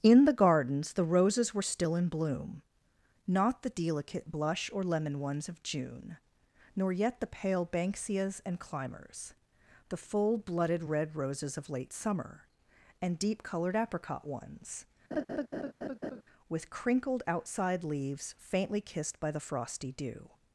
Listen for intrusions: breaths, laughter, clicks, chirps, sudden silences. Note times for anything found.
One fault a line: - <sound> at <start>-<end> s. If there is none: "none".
- laugh at 15.1-16.2 s